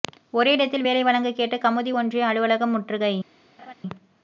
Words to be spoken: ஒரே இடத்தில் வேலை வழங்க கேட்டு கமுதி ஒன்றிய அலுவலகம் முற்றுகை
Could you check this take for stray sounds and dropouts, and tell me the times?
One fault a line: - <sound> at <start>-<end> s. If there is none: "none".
- laugh at 3.6-3.7 s